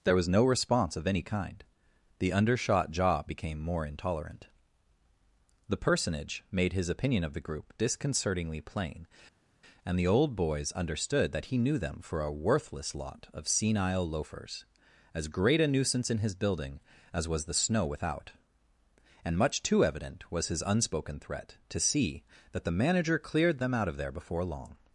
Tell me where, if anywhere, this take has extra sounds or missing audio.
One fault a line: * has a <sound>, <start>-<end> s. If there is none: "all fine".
all fine